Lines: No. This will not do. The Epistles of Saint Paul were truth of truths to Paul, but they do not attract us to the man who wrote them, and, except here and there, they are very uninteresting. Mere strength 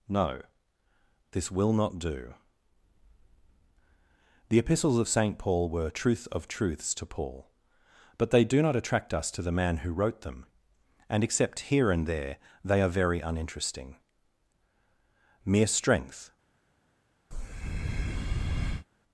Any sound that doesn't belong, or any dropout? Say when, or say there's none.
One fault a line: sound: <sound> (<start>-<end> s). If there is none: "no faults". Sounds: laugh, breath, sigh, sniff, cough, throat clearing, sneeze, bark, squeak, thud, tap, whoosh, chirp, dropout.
sound: breath (17.3-18.9 s)